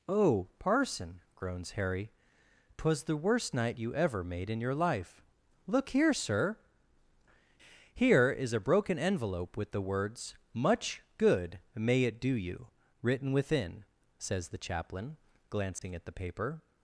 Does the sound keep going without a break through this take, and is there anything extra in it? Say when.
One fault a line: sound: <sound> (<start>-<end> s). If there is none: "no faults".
sound: dropout (15.8-15.8 s)